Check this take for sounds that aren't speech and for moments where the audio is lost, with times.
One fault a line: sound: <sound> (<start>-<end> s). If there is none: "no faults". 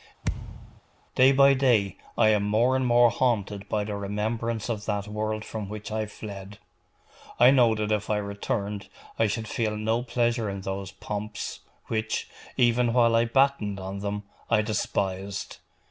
sound: thud (0.2-0.8 s)